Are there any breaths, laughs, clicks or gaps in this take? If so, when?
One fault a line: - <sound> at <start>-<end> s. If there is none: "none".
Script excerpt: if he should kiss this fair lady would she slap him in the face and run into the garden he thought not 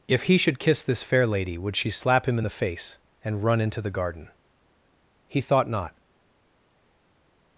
none